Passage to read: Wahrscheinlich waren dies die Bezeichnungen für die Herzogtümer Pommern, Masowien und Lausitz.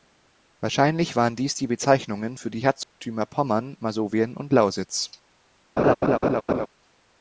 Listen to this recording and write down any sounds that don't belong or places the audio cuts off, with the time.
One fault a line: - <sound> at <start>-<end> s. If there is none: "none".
- dropout at 2.8-3.0 s
- laugh at 5.8-6.7 s